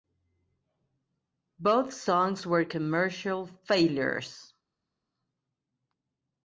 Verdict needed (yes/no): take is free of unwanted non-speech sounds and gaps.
yes